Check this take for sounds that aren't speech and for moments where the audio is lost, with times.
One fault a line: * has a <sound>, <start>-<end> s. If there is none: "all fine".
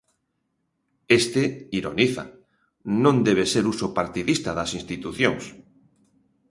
all fine